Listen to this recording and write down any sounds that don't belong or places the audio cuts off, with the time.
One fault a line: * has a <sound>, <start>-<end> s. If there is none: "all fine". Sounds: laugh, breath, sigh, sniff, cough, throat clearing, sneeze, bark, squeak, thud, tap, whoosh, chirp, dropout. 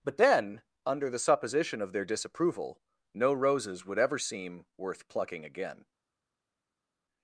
all fine